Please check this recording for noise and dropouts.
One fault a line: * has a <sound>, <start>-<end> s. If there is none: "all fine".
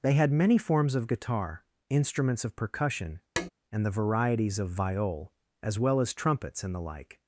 * has a tap, 3.4-3.5 s